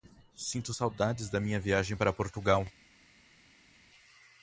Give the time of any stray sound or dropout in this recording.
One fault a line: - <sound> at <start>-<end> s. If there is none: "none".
none